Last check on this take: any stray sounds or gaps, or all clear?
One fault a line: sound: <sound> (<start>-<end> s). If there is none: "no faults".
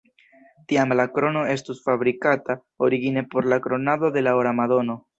no faults